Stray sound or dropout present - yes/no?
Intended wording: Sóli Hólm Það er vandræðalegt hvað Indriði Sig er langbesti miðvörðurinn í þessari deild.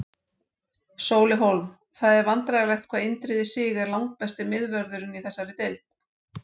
no